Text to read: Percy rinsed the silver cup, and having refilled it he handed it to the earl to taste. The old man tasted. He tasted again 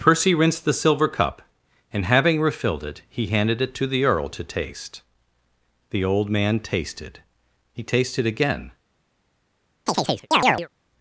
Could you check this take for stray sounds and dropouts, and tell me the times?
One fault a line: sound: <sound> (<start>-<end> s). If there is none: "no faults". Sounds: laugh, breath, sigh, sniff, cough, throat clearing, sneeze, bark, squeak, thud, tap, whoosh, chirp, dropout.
sound: chirp (9.9-10.7 s)